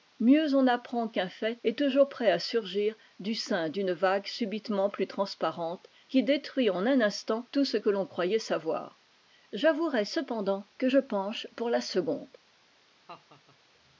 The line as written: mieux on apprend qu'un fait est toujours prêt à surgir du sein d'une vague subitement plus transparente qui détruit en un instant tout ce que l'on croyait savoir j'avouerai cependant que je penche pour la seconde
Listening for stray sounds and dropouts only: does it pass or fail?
fail